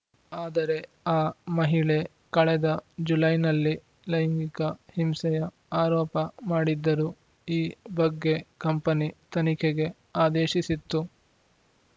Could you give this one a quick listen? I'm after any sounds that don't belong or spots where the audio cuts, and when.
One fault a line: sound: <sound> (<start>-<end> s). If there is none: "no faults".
no faults